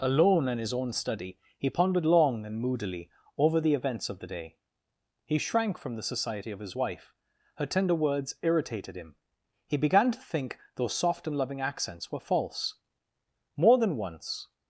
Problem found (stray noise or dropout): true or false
false